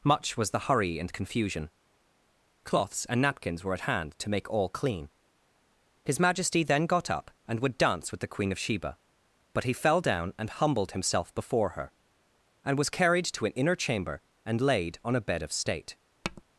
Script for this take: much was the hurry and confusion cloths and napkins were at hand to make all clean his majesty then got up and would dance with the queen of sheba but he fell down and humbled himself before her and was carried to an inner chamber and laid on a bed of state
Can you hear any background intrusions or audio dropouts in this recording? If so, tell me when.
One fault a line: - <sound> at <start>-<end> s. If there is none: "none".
- tap at 16.2-16.4 s